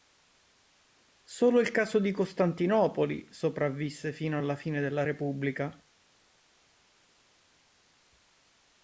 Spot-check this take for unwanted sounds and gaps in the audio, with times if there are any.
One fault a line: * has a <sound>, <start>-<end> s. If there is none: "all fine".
all fine